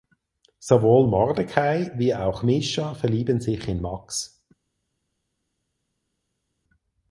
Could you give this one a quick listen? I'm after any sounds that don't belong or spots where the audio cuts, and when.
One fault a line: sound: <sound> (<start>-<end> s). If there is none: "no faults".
no faults